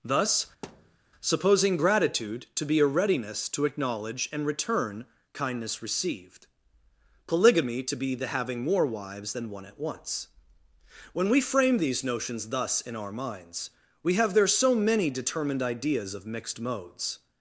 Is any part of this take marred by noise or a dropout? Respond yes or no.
yes